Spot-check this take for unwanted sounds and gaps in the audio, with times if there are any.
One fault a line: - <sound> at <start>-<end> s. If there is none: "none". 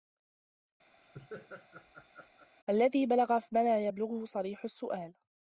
- laugh at 1.0-2.5 s